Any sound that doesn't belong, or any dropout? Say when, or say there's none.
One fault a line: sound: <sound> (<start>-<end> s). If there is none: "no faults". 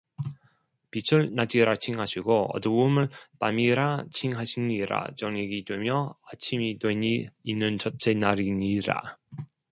no faults